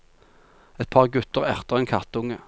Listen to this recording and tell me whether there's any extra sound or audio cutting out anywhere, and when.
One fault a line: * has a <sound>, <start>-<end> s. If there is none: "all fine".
all fine